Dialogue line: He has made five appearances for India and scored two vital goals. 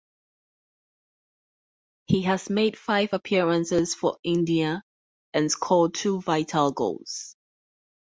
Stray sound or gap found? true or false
false